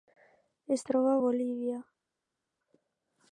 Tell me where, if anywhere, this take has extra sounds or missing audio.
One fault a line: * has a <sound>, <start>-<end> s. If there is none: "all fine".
all fine